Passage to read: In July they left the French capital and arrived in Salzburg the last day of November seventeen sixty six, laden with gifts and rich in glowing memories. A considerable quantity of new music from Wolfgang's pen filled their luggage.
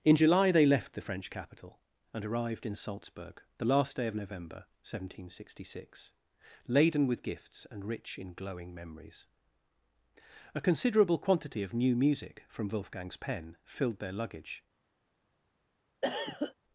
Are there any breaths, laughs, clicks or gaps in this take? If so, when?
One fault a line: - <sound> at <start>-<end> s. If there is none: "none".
- cough at 16.0-16.5 s